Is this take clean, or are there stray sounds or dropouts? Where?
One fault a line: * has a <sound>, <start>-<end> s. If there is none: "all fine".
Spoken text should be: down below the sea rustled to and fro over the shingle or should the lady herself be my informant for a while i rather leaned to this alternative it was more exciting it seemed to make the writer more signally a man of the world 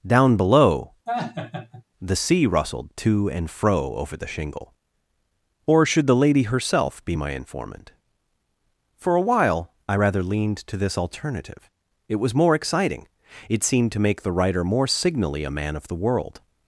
* has a laugh, 1.1-1.8 s